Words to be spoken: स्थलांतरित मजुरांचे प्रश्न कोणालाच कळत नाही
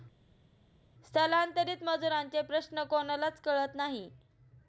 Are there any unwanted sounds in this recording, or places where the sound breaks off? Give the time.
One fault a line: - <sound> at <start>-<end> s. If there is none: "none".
none